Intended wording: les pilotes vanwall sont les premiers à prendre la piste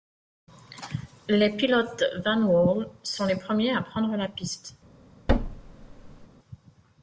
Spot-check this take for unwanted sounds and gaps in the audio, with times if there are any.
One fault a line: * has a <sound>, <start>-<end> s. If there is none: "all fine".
* has a thud, 5.3-6.3 s